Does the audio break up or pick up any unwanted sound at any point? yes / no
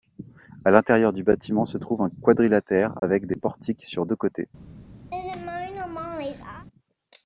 yes